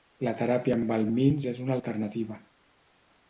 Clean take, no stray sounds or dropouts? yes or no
yes